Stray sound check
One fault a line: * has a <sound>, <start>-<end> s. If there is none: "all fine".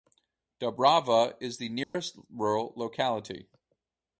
* has a dropout, 1.8-1.9 s